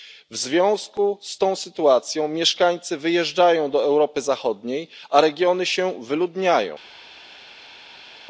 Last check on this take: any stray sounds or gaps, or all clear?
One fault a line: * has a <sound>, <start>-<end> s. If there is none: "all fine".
all fine